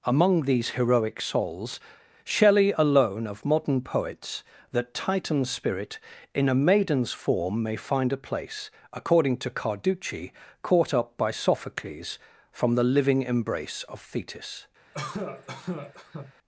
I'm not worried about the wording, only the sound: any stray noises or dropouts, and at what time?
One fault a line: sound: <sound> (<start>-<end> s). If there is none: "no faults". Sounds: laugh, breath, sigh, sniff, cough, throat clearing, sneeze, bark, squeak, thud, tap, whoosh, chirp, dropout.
sound: cough (14.9-16.3 s)